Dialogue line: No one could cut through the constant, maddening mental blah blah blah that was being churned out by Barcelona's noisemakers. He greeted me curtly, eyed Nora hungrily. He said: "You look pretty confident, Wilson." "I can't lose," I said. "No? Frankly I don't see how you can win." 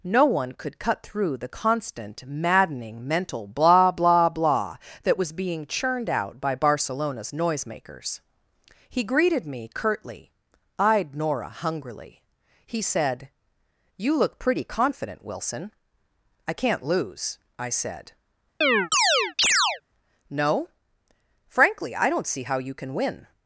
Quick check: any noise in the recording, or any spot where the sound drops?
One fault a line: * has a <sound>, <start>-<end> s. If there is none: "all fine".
* has a chirp, 18.6-19.8 s